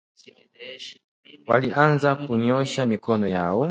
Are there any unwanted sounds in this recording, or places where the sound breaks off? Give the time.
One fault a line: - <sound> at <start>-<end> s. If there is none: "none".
none